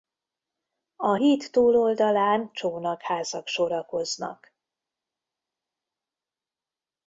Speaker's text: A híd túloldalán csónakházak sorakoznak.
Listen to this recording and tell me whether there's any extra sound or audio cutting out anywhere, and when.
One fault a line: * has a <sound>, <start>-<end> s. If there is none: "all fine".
all fine